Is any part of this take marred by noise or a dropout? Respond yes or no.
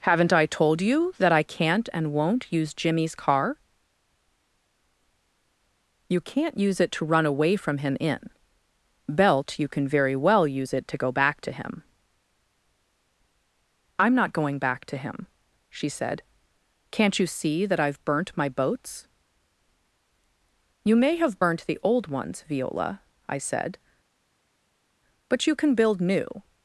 no